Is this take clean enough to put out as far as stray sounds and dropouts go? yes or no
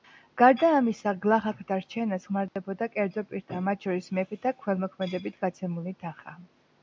no